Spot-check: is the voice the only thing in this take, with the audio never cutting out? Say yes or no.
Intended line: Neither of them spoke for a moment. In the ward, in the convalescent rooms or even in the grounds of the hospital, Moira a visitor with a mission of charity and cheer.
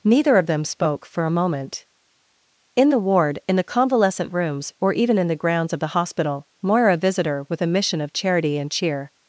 yes